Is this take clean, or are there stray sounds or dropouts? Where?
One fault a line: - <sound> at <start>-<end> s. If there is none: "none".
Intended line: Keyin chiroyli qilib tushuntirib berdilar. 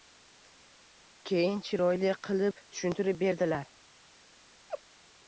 - laugh at 4.7-4.8 s